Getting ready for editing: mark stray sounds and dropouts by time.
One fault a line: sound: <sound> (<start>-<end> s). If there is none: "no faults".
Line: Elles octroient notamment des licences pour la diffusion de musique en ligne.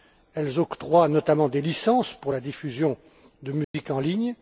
sound: dropout (3.6-3.7 s)